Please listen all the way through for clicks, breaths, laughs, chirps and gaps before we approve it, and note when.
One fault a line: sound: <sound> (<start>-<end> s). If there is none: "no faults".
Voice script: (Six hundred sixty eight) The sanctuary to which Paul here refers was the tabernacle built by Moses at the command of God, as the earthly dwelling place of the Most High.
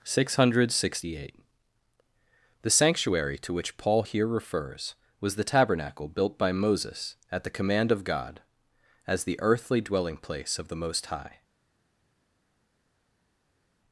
no faults